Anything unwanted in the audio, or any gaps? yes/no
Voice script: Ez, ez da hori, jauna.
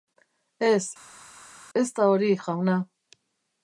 no